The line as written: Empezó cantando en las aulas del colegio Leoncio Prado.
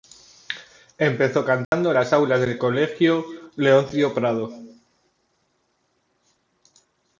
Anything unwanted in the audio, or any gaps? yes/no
yes